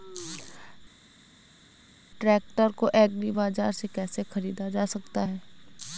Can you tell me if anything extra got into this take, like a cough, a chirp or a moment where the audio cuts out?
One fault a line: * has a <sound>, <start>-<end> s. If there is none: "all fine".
all fine